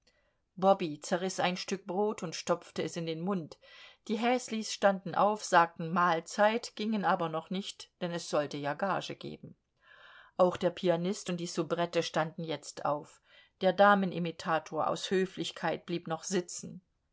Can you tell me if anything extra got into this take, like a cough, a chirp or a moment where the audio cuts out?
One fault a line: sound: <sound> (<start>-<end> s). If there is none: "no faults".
no faults